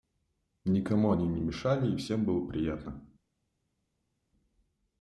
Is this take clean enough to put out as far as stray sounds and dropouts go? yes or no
yes